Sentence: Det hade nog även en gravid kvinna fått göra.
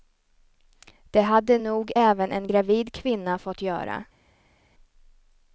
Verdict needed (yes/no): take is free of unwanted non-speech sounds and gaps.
yes